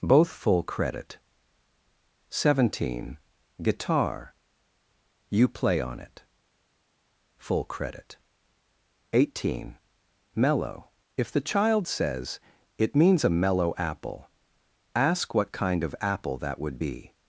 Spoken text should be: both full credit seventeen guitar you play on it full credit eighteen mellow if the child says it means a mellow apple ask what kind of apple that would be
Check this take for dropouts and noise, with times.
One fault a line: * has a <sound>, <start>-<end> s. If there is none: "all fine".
all fine